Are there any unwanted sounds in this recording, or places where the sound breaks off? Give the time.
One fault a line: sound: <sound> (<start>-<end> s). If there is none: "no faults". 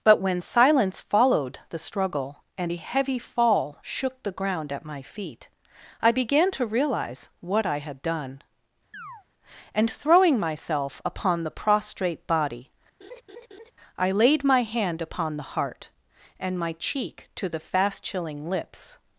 sound: chirp (8.9-9.2 s)
sound: laugh (13.0-13.7 s)